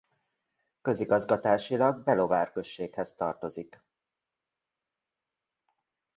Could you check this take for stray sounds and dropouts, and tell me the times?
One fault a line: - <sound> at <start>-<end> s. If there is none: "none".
none